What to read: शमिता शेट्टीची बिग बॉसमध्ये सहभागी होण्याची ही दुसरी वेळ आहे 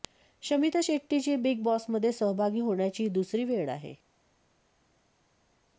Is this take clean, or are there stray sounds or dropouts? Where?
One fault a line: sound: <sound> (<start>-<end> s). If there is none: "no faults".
no faults